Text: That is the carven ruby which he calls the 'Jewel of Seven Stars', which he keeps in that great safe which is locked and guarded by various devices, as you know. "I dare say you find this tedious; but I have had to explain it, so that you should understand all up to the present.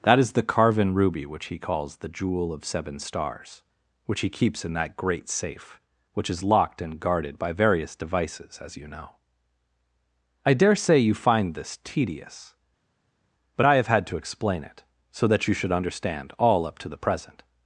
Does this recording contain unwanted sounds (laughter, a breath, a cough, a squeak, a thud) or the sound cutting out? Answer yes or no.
no